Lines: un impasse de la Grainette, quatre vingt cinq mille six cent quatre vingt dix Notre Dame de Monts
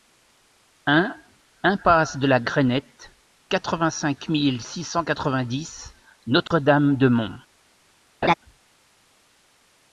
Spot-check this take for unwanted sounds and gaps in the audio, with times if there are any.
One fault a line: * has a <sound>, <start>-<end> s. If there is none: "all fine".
* has a dropout, 6.5-6.5 s
* has a laugh, 8.2-8.3 s